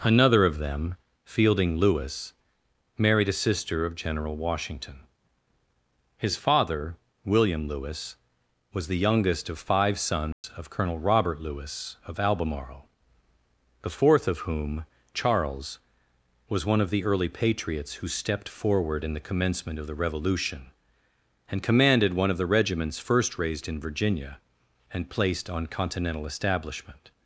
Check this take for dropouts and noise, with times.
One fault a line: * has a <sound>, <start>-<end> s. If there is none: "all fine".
* has a dropout, 10.3-10.4 s